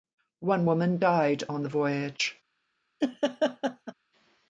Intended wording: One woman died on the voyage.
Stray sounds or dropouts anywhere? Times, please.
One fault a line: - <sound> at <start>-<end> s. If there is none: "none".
- laugh at 3.0-3.9 s